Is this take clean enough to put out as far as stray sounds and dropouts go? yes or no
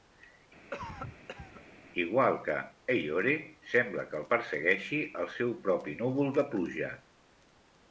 no